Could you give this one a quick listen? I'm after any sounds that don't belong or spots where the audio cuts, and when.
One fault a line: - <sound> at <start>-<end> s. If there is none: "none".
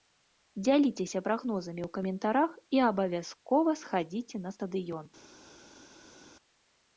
none